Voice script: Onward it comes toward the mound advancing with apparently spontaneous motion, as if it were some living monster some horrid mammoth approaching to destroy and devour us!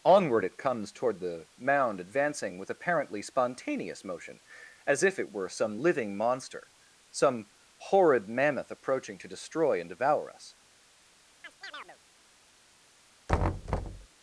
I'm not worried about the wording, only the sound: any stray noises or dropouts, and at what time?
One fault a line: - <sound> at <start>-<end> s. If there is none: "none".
- chirp at 11.4-12.0 s
- thud at 13.3-14.1 s